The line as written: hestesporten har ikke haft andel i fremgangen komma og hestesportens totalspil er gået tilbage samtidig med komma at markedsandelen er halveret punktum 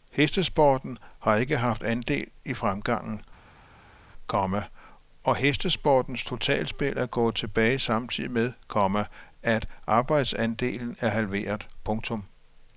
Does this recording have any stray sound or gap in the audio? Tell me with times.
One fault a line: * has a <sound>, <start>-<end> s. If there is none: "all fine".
all fine